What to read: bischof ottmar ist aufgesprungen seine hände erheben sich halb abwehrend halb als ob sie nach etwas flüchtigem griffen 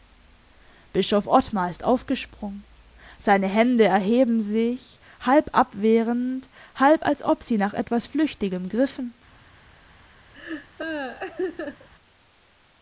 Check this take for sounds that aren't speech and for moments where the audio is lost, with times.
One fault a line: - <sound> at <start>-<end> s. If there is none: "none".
- laugh at 10.3-11.9 s